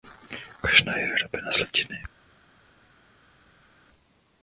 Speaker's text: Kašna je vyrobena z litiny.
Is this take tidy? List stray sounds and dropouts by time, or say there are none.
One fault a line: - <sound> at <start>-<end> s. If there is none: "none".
none